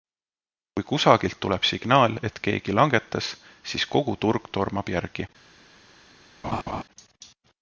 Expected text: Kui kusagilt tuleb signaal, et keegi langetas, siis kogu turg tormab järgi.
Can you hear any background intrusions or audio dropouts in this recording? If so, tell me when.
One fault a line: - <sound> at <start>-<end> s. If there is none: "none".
- laugh at 6.4-6.8 s